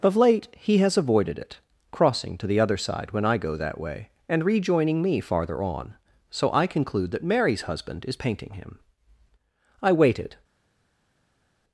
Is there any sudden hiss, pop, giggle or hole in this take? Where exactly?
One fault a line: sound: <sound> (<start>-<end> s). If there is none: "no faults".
no faults